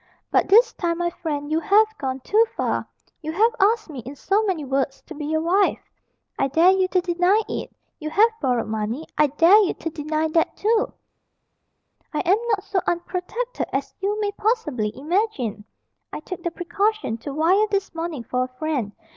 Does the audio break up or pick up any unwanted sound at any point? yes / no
no